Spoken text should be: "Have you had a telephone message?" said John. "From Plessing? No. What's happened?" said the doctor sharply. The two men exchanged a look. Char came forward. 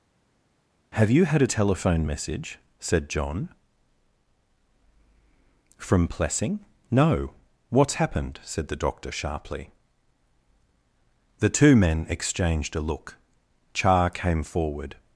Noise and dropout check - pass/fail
pass